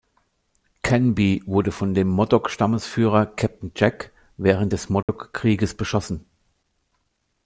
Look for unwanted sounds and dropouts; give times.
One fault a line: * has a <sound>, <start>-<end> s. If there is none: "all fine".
* has a dropout, 5.0-5.1 s